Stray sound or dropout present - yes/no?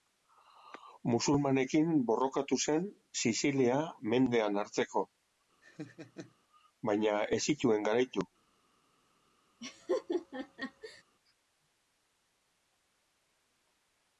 yes